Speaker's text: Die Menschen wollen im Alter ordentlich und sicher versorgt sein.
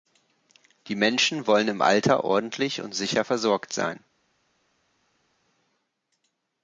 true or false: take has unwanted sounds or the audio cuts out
false